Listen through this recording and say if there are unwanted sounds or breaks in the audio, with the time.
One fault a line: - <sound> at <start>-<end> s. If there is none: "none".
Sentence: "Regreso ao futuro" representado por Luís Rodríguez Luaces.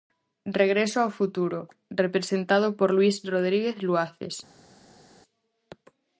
none